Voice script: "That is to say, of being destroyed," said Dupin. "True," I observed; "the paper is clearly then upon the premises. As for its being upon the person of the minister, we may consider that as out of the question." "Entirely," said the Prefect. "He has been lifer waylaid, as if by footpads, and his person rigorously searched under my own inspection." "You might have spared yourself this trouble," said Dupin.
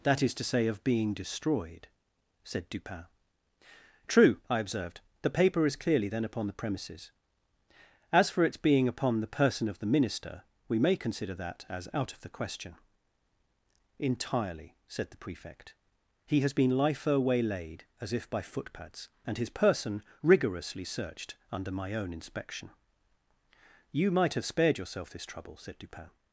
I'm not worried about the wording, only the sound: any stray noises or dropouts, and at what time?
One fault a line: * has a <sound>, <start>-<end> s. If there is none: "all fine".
all fine